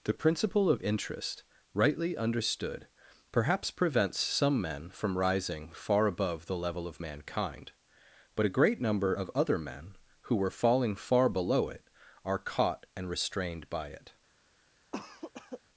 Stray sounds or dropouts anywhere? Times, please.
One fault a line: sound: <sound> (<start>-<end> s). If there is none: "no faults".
sound: cough (14.9-15.6 s)